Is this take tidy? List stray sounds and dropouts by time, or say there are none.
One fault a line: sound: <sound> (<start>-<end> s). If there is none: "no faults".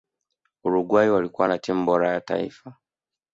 no faults